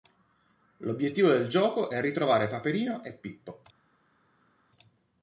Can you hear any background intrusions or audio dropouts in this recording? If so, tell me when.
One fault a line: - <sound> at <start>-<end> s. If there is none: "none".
none